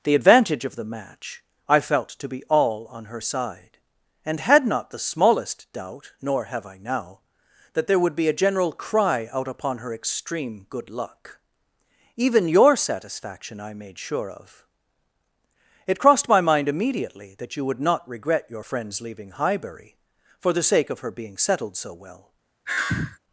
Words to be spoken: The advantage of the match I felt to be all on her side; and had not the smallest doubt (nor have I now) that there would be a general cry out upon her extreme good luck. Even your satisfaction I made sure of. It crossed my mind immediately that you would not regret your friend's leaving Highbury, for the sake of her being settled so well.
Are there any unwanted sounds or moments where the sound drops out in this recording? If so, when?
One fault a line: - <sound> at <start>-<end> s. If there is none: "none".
- sigh at 22.7-23.2 s